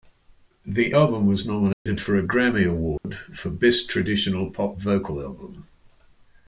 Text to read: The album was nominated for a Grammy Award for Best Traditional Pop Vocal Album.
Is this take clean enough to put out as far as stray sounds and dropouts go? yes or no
no